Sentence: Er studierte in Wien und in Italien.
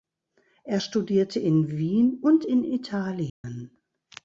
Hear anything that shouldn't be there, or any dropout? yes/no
yes